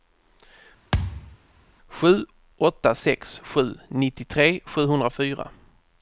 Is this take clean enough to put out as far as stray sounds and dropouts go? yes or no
no